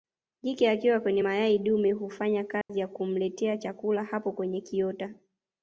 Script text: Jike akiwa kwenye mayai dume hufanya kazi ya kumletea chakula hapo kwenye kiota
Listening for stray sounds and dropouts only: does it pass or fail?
fail